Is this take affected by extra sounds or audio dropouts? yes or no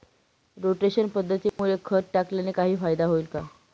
yes